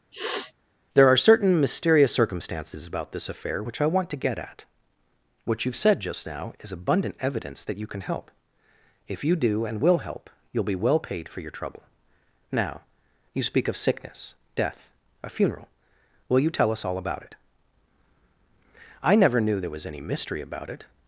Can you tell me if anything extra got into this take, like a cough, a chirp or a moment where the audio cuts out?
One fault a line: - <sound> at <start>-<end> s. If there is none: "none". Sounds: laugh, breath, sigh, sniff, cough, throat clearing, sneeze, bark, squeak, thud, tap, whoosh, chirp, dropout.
- sniff at 0.1-0.5 s